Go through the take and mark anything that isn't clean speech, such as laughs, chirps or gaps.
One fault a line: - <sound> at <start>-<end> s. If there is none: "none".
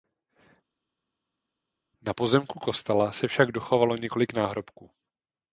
none